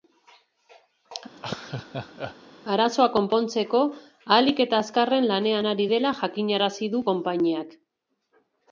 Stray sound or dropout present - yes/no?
yes